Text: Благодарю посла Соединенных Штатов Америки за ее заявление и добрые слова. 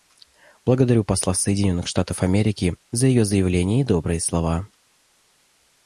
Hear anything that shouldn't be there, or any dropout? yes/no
no